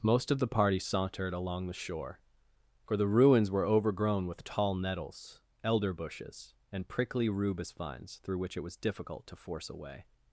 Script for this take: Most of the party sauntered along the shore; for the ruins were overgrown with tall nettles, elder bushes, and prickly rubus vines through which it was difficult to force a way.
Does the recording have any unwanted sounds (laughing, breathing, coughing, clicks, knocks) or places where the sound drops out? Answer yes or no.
no